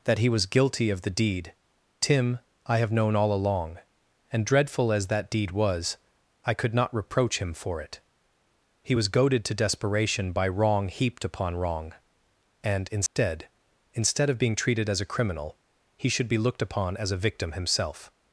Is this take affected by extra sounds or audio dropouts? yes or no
yes